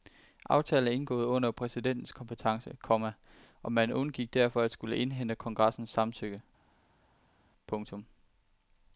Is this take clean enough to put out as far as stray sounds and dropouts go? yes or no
yes